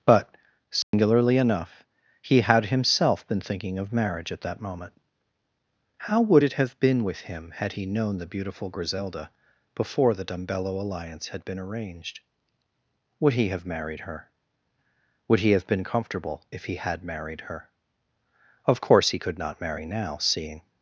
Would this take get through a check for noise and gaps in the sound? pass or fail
fail